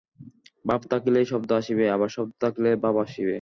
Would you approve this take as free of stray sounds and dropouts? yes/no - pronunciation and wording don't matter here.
yes